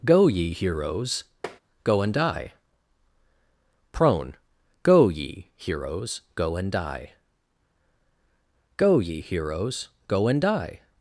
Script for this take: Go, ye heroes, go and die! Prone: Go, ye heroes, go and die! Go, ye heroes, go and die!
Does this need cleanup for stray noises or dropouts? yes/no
yes